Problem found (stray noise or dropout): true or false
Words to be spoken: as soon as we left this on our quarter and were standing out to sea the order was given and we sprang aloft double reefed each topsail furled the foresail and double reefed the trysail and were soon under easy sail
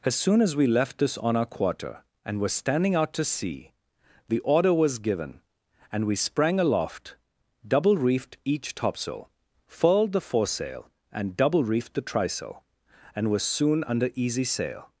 false